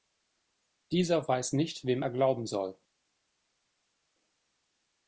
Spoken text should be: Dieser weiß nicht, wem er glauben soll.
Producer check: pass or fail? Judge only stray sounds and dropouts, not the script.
pass